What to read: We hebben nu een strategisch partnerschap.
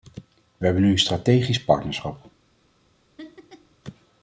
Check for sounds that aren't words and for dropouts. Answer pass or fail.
fail